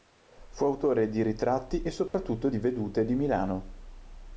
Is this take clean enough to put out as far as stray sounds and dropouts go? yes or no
no